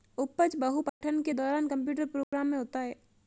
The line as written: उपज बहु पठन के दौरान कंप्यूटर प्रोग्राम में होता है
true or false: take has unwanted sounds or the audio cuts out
true